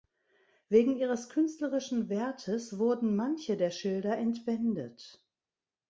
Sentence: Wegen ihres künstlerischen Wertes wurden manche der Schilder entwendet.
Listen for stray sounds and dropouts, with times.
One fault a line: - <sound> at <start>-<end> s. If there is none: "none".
none